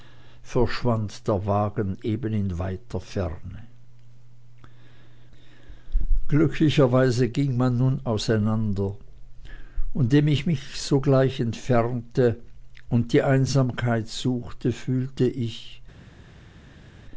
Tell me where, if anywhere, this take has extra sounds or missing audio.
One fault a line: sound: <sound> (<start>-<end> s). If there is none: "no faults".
no faults